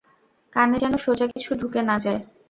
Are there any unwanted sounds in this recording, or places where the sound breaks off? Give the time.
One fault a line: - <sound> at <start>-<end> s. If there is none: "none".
- dropout at 1.3-1.4 s